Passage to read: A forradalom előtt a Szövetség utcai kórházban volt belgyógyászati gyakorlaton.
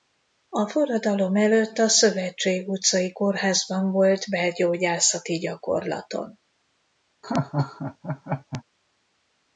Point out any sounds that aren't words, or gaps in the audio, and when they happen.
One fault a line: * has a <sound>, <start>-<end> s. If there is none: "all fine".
* has a laugh, 7.2-8.6 s